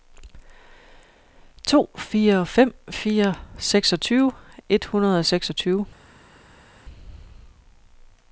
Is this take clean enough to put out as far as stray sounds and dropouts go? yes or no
yes